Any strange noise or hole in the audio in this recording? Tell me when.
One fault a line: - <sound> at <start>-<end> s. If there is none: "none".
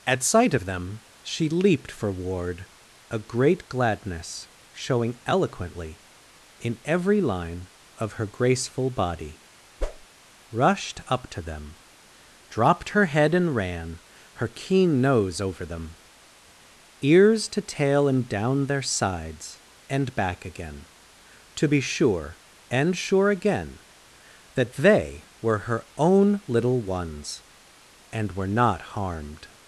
- whoosh at 9.8-10.1 s